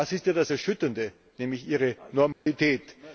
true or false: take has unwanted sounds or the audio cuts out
true